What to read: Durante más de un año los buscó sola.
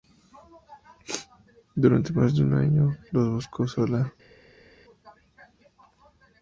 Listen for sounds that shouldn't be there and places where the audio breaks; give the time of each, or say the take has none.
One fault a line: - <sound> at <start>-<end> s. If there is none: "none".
none